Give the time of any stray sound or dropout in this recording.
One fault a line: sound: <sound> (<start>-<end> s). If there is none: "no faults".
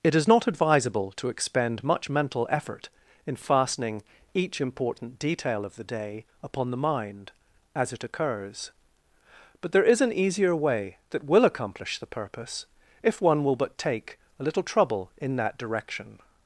no faults